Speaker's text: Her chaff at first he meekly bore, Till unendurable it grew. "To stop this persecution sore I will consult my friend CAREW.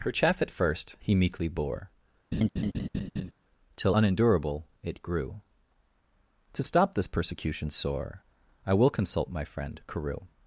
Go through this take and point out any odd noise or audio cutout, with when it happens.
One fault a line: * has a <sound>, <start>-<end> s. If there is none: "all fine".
* has a laugh, 2.3-3.3 s